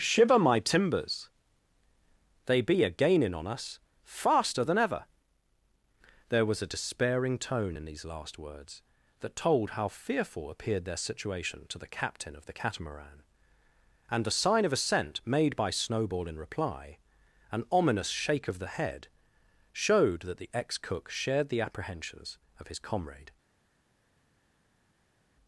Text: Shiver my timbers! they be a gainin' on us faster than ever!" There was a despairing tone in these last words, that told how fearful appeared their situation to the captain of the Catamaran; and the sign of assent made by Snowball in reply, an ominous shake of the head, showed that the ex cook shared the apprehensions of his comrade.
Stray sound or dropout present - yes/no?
no